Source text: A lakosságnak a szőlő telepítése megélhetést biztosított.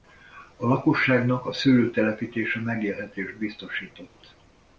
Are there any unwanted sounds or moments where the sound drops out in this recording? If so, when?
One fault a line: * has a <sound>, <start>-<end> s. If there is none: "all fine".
all fine